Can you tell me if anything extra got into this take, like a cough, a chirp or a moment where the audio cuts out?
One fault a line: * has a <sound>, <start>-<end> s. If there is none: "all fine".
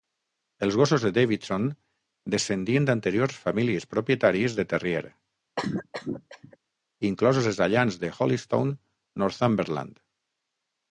* has a cough, 5.6-6.6 s